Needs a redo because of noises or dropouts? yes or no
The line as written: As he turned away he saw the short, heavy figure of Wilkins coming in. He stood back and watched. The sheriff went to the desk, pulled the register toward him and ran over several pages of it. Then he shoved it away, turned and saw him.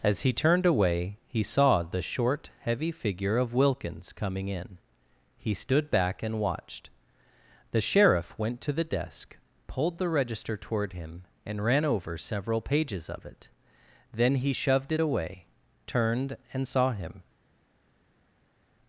no